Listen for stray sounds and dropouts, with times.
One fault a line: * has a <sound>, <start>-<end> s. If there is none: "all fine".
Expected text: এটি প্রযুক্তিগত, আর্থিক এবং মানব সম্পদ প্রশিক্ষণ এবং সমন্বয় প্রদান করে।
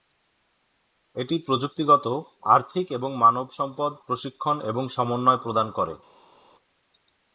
all fine